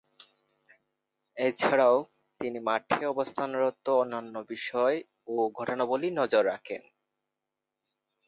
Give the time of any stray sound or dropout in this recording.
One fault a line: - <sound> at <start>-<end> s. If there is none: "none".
none